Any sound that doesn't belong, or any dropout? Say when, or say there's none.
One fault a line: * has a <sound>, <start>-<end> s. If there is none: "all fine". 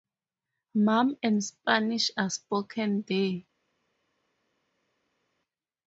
all fine